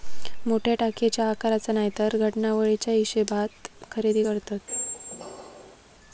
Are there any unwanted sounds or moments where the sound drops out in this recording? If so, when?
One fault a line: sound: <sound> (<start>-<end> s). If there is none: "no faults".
sound: squeak (4.7-5.8 s)